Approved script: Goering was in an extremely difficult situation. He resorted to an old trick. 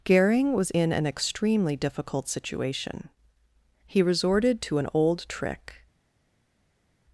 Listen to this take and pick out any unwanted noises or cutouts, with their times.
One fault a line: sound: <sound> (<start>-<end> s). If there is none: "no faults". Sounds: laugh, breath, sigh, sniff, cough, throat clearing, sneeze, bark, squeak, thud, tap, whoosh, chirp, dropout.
no faults